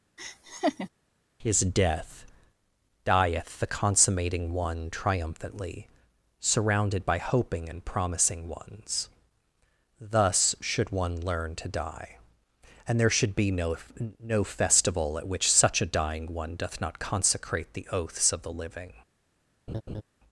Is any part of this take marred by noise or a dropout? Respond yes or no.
yes